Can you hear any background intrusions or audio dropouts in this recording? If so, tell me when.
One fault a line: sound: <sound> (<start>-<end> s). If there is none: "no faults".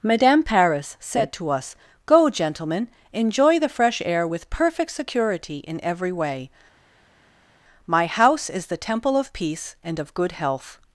no faults